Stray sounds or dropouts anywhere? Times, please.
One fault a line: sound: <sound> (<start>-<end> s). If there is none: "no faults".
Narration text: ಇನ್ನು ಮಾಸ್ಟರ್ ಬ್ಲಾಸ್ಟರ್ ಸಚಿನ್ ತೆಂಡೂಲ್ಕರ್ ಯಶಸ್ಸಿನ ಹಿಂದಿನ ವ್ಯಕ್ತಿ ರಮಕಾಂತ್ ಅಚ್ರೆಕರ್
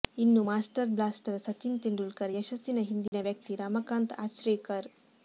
sound: dropout (3.1-3.1 s)